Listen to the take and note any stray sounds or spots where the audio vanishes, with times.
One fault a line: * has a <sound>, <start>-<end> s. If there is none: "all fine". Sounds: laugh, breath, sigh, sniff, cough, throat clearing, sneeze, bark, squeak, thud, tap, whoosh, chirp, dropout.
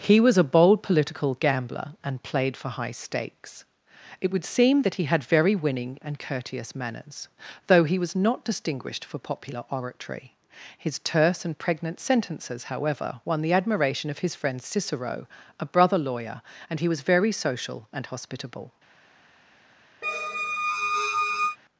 * has a squeak, 20.0-21.6 s